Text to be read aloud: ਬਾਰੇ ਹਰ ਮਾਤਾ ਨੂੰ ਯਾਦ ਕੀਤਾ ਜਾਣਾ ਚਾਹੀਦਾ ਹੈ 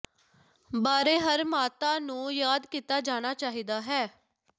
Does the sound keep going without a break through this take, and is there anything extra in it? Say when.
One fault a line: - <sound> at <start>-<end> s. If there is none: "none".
none